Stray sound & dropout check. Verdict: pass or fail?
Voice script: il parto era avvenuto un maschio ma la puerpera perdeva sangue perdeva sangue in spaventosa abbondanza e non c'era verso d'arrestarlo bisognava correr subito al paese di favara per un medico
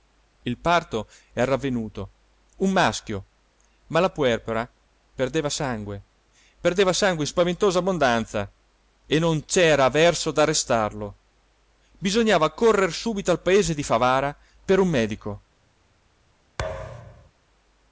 fail